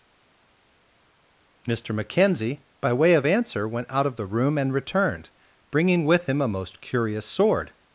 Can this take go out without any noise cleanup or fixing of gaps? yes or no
yes